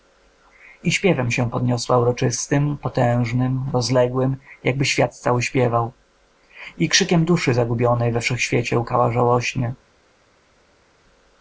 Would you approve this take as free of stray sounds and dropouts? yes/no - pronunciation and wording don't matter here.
yes